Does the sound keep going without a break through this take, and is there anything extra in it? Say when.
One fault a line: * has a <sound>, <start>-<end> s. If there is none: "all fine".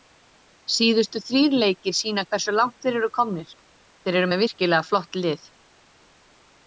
all fine